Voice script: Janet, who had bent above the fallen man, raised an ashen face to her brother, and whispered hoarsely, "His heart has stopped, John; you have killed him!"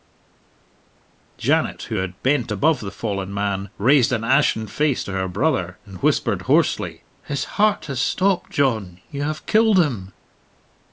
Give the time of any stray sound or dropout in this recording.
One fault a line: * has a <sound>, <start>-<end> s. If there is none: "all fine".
all fine